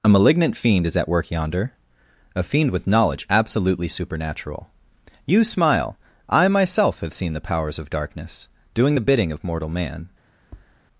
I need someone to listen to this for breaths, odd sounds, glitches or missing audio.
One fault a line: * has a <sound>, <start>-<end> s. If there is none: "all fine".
* has a tap, 10.4-10.8 s